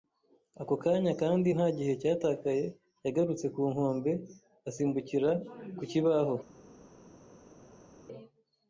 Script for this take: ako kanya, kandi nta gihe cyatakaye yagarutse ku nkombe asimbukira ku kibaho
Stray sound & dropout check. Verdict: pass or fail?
pass